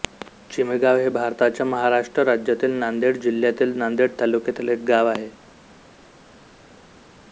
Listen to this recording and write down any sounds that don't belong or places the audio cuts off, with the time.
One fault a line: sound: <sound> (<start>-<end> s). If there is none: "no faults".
no faults